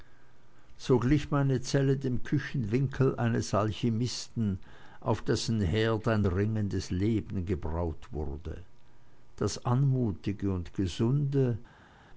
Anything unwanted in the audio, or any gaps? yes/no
no